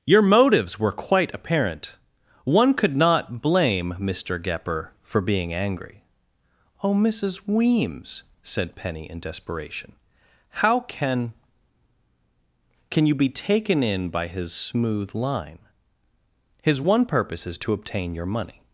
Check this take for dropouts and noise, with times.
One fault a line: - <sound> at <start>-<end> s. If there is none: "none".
none